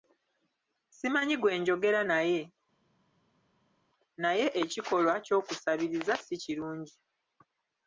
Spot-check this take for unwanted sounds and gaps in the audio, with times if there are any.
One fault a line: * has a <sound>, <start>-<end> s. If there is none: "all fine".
all fine